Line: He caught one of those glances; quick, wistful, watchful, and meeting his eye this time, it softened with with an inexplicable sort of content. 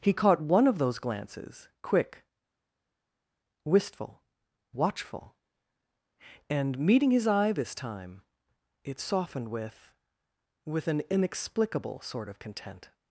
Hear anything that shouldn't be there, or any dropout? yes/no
no